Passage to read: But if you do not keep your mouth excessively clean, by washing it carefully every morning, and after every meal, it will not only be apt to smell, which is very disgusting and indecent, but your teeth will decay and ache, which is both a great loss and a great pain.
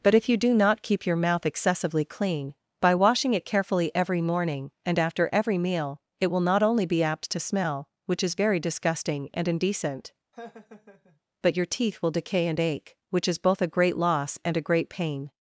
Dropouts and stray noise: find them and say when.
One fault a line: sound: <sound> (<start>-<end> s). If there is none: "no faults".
sound: laugh (10.3-11.2 s)